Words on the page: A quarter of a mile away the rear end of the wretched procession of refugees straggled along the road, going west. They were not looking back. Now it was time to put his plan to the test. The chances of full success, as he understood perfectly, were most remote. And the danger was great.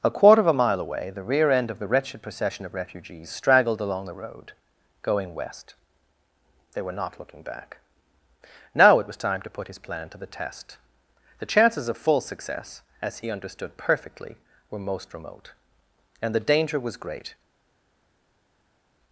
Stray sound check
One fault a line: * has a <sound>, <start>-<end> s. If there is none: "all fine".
all fine